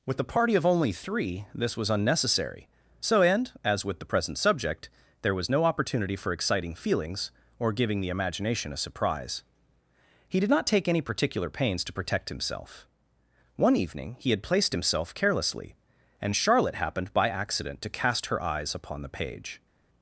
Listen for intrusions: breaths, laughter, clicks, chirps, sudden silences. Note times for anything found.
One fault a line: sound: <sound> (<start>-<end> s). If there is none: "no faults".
no faults